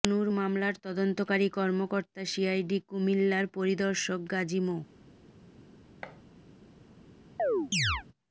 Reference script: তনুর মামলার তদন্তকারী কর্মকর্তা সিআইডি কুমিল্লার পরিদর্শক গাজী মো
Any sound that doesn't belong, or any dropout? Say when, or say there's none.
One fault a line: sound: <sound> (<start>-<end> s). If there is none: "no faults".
sound: thud (6.0-6.2 s)
sound: chirp (7.4-8.0 s)